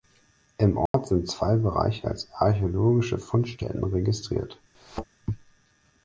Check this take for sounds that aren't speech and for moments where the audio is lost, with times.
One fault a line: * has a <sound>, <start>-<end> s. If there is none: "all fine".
* has a dropout, 0.9-0.9 s
* has a thud, 4.7-5.0 s